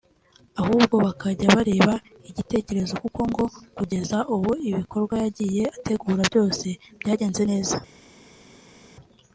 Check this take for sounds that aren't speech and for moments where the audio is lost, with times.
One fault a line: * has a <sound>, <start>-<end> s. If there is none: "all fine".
all fine